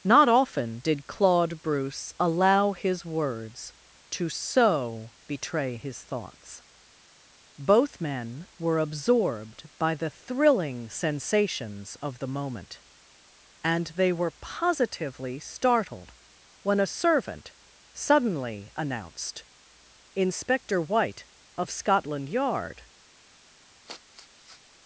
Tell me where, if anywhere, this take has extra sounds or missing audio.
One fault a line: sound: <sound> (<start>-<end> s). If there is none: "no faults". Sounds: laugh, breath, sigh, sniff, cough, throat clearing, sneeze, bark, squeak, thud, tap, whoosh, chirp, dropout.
sound: sniff (23.9-24.6 s)